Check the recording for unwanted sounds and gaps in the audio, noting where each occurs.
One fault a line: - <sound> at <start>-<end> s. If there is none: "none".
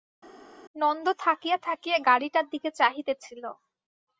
none